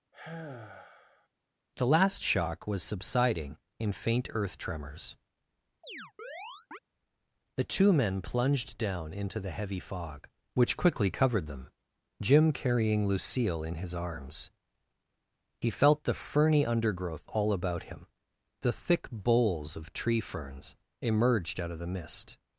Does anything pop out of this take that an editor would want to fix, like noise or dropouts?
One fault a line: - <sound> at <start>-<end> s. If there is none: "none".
- sigh at 0.1-1.3 s
- chirp at 5.8-6.8 s